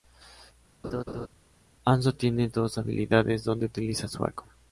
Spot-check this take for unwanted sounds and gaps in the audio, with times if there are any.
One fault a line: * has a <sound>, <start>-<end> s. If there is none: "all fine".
* has a laugh, 0.8-1.3 s